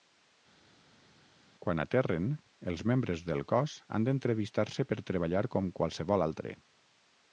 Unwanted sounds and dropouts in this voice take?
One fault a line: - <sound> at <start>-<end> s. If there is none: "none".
none